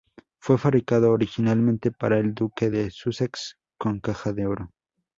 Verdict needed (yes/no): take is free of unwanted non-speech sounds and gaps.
yes